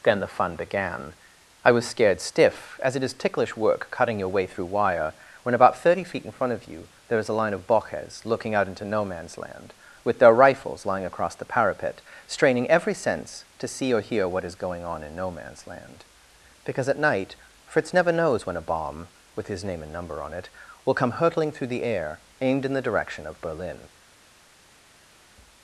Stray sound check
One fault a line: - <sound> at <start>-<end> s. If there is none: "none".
none